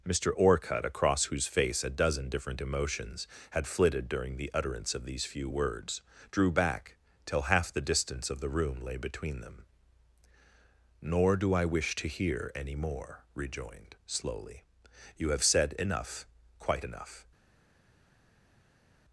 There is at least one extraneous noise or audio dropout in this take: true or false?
false